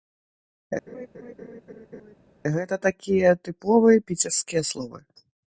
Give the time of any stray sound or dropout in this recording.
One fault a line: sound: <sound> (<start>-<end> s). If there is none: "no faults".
sound: laugh (0.9-2.2 s)